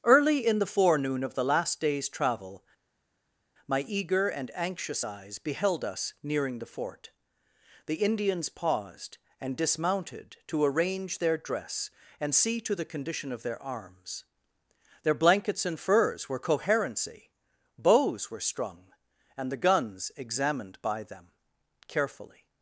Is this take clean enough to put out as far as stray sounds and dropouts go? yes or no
yes